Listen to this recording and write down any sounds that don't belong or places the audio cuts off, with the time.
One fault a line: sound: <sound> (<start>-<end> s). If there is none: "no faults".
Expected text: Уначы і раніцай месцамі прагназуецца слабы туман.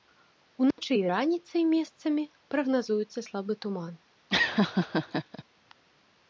sound: dropout (0.7-0.8 s)
sound: laugh (4.3-5.4 s)